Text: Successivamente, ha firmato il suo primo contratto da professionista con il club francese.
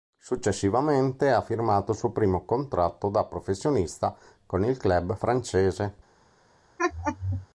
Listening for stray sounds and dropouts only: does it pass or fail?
fail